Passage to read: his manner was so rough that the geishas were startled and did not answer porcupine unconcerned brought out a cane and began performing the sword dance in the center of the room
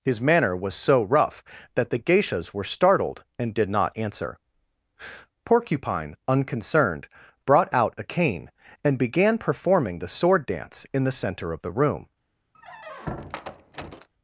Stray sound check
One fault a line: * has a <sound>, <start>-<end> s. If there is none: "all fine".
* has a squeak, 12.5-14.1 s